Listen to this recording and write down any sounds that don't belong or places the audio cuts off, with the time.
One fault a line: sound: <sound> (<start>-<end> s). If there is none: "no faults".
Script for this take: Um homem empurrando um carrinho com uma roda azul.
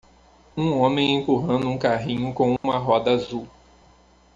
sound: dropout (2.6-2.6 s)